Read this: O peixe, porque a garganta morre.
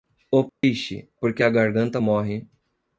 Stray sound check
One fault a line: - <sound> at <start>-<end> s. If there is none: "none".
- dropout at 0.5-0.6 s